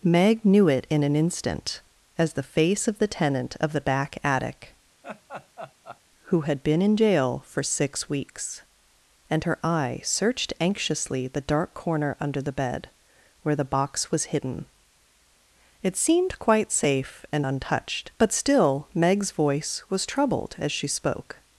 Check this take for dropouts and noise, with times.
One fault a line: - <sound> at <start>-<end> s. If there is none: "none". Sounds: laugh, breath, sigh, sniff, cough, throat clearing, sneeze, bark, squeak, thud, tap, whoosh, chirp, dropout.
- laugh at 5.0-6.0 s